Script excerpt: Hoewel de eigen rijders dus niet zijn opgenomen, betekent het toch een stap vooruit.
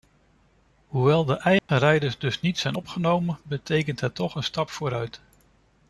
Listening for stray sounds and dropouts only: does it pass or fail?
fail